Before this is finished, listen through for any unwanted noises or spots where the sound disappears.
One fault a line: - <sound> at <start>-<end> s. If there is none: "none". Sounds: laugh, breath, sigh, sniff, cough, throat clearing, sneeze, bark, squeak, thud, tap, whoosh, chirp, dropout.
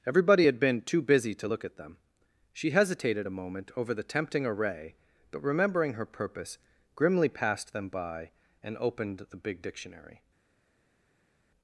none